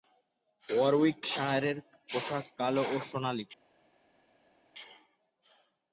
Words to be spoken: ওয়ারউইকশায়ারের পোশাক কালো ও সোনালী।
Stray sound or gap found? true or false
false